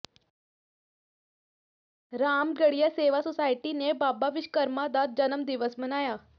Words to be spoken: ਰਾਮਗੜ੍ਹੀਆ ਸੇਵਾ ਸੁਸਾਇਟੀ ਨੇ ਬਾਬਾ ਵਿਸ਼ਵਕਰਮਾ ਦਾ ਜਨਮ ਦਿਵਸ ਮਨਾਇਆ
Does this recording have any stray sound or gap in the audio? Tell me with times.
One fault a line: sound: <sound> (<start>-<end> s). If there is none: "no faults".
no faults